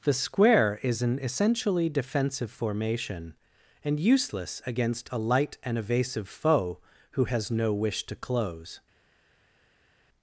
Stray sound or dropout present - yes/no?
no